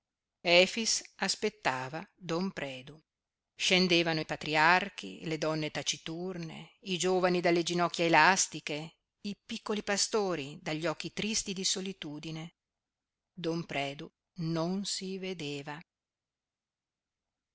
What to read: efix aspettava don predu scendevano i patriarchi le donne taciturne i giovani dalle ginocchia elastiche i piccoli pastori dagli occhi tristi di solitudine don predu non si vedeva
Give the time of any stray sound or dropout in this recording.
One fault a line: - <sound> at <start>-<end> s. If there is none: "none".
none